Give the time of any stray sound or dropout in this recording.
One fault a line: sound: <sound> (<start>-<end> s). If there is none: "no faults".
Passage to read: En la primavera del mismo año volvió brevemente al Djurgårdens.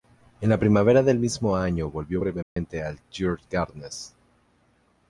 sound: dropout (2.4-2.6 s)